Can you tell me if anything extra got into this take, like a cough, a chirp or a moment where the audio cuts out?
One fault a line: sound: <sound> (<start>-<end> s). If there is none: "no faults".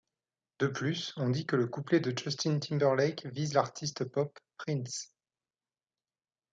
no faults